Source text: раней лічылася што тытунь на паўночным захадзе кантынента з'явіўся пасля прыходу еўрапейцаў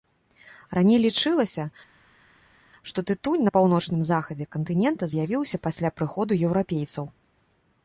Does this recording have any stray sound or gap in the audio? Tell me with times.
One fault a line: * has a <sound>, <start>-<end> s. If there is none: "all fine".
all fine